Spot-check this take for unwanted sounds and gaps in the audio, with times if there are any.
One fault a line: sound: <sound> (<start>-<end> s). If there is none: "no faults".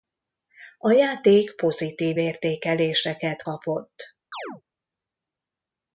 sound: chirp (4.3-4.6 s)